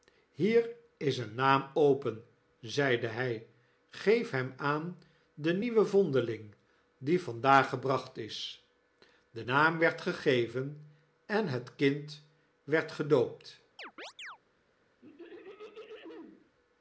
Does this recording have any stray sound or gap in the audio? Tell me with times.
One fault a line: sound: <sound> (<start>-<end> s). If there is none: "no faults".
sound: chirp (13.8-14.4 s)
sound: throat clearing (15.0-16.5 s)